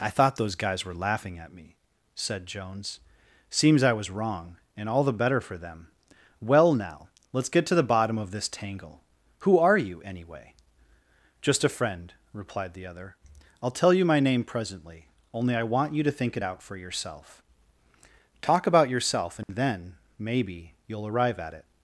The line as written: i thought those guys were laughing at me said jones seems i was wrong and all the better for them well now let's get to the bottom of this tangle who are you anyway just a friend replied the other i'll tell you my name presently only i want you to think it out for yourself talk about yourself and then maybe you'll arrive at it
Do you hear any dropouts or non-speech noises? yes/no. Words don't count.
yes